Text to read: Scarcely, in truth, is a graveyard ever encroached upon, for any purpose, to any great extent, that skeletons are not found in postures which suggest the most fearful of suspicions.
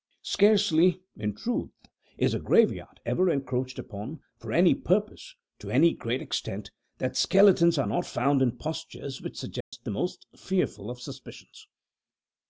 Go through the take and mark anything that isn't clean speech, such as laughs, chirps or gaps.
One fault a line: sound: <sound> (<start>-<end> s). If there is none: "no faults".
sound: dropout (9.6-9.7 s)